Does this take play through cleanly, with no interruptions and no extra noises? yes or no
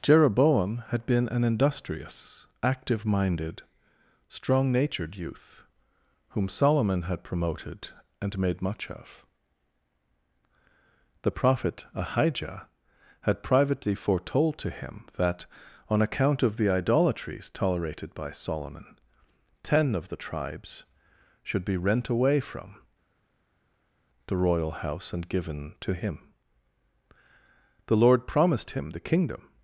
yes